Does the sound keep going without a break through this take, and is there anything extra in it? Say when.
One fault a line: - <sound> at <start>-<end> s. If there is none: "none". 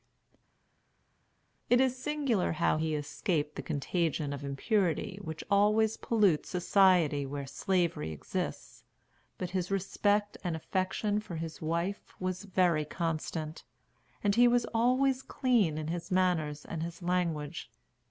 none